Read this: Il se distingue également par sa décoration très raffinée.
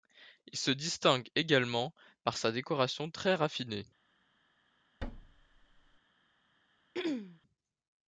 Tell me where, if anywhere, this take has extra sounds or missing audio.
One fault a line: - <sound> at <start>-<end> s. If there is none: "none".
- thud at 5.0-6.0 s
- throat clearing at 6.9-7.4 s